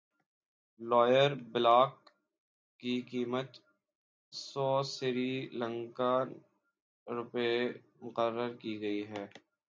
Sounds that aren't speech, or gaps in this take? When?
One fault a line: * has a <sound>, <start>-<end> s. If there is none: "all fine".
all fine